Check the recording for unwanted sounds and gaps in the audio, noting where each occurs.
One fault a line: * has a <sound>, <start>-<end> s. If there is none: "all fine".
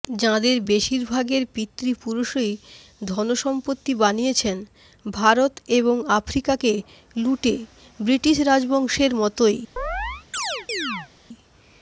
* has a chirp, 9.8-11.1 s